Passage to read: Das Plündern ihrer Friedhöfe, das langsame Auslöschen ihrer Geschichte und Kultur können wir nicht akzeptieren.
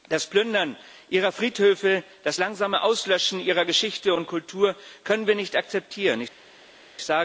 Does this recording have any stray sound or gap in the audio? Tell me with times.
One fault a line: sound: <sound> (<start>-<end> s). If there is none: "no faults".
no faults